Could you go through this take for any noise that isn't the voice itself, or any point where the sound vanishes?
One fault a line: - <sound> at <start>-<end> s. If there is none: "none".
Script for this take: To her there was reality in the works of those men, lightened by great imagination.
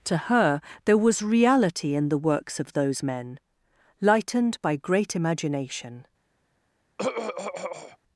- throat clearing at 7.0-8.0 s